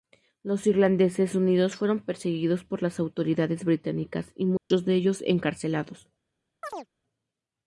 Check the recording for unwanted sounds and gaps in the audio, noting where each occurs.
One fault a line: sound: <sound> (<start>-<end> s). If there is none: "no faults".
sound: dropout (4.6-4.7 s)
sound: chirp (6.6-6.9 s)